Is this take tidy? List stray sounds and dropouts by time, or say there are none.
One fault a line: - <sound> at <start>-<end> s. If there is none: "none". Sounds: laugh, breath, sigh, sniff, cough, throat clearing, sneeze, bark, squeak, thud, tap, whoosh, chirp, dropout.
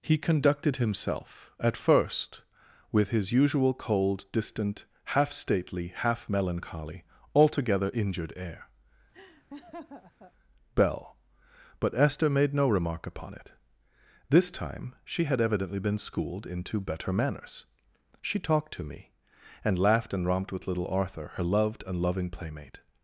- laugh at 9.1-10.3 s